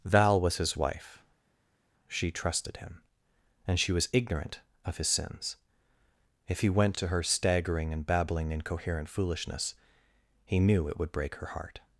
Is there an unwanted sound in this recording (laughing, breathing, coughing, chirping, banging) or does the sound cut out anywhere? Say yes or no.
no